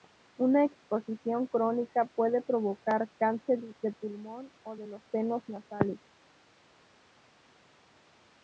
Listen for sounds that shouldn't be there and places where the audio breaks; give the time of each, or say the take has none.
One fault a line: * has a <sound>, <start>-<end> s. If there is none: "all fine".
all fine